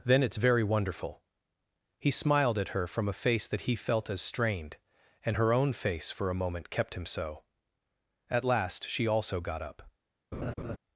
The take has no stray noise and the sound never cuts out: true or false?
false